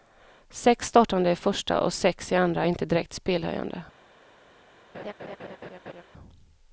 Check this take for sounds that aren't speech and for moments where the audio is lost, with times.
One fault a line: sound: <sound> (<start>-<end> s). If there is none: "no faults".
sound: laugh (4.9-6.0 s)